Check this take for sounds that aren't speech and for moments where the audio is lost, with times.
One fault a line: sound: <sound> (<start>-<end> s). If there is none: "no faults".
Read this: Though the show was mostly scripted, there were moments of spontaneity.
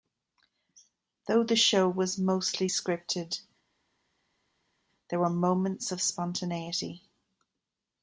no faults